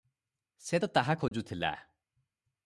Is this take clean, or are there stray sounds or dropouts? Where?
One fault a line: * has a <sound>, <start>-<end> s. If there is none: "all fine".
* has a dropout, 1.3-1.3 s